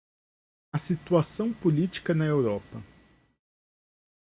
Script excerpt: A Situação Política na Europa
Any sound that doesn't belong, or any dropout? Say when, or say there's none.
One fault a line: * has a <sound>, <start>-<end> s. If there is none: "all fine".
all fine